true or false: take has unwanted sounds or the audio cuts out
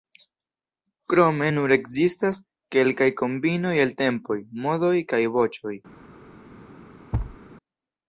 true